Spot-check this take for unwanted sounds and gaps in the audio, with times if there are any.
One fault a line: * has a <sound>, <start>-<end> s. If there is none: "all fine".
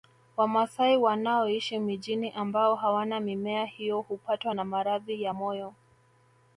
all fine